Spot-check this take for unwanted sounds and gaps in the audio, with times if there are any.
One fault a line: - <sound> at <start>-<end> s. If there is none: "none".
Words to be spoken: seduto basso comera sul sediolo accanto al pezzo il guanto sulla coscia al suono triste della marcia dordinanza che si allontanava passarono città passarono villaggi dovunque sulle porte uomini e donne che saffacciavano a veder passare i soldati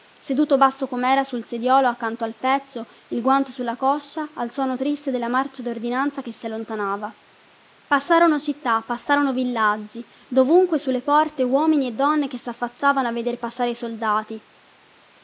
none